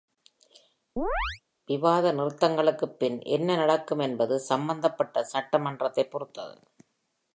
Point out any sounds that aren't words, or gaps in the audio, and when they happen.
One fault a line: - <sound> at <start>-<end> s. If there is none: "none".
- chirp at 1.0-1.4 s